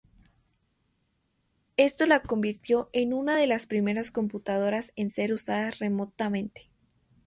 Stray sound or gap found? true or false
false